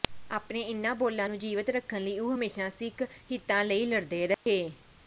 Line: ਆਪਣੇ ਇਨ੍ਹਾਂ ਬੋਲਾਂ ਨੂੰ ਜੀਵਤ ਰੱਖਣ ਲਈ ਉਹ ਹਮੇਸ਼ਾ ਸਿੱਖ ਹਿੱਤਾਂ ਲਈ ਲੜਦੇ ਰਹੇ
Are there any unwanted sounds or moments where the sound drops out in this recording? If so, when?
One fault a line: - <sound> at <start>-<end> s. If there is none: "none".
- dropout at 4.3-4.5 s